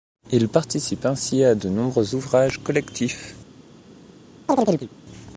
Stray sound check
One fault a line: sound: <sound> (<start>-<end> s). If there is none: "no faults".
sound: chirp (4.5-4.9 s)